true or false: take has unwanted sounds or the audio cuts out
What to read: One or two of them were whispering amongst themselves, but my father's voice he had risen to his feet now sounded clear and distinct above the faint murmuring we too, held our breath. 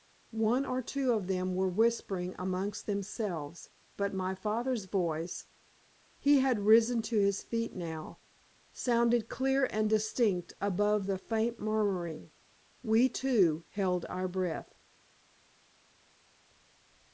false